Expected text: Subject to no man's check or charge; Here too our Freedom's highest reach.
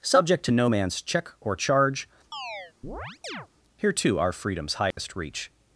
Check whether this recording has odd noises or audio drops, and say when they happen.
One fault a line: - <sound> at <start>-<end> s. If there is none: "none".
- chirp at 2.3-3.5 s
- dropout at 4.9-5.0 s